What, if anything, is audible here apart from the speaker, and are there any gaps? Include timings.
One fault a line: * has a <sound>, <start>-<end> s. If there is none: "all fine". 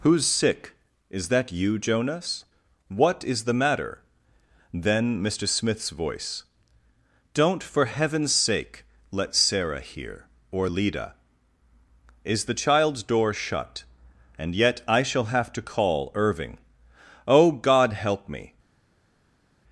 all fine